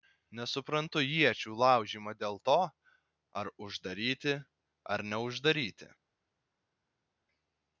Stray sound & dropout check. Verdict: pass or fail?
pass